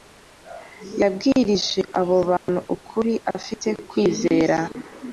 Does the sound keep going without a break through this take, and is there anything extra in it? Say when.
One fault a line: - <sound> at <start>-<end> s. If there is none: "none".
- dropout at 2.4-2.5 s